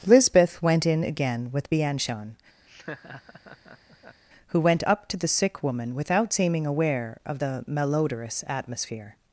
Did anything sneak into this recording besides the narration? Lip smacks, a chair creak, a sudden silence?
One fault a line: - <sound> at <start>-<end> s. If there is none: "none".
- laugh at 2.7-4.2 s